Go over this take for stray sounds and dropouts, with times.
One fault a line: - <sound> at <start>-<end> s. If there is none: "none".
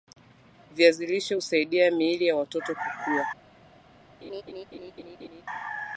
- laugh at 4.2-5.4 s